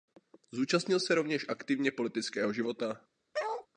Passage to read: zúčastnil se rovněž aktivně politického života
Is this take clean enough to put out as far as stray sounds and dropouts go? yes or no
no